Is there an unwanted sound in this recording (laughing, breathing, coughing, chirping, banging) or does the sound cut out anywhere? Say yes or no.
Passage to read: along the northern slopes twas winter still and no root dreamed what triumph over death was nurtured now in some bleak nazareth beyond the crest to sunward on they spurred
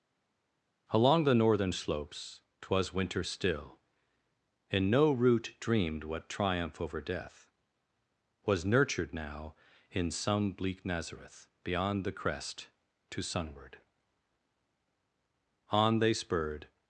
no